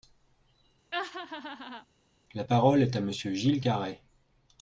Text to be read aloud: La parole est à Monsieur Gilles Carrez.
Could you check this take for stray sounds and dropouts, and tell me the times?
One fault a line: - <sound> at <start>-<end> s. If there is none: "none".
- laugh at 0.9-1.9 s